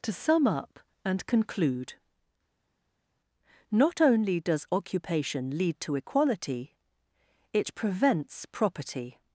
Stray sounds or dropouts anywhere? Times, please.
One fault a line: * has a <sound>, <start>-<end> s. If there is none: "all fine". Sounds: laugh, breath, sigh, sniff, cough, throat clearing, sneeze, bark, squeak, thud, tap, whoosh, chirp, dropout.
all fine